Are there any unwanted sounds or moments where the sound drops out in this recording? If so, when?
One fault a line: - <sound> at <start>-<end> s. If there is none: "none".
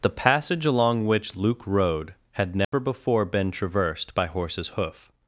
- dropout at 2.6-2.7 s